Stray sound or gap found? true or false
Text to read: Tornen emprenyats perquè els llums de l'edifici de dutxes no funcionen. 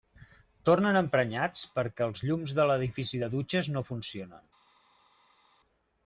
false